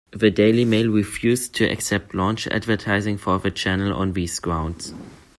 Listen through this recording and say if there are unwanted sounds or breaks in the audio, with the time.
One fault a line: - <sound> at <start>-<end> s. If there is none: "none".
none